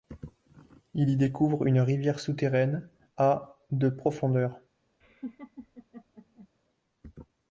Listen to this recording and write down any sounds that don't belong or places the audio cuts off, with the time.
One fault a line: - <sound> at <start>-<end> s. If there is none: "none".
- laugh at 5.0-6.5 s